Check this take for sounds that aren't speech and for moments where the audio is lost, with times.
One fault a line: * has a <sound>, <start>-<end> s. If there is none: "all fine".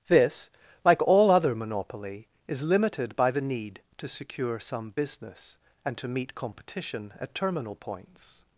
all fine